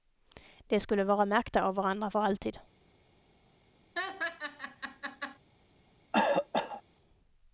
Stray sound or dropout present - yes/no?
yes